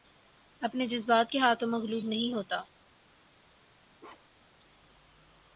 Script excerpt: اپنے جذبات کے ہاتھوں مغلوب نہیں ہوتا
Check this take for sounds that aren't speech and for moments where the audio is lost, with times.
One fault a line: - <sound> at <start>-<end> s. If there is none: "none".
- bark at 4.0-4.6 s